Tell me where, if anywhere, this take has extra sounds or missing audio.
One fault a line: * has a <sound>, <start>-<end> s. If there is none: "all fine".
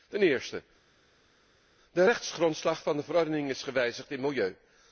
all fine